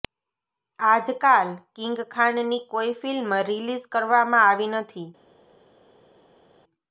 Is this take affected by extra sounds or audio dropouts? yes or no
no